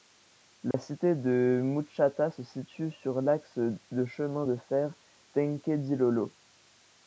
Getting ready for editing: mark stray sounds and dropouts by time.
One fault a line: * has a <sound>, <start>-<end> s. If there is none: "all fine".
* has a dropout, 0.7-0.7 s